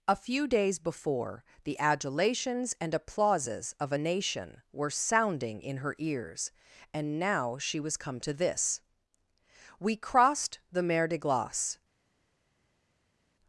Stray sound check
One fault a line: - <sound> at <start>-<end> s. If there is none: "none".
none